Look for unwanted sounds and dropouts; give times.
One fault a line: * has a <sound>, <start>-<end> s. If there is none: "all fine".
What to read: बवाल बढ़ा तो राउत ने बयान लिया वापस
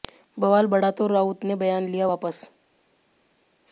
all fine